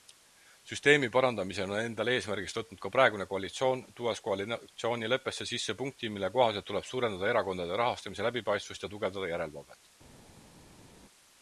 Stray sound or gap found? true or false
false